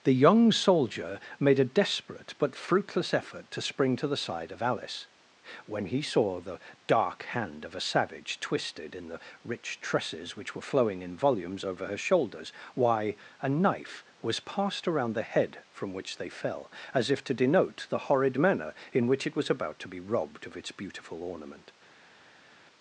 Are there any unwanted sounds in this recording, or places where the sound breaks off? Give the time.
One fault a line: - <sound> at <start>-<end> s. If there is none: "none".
none